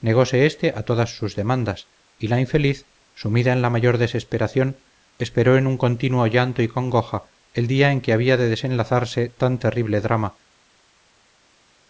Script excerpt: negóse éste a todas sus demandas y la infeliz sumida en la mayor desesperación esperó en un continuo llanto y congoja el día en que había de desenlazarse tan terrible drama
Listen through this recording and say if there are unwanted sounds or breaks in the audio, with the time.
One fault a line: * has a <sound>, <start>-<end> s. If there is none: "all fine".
all fine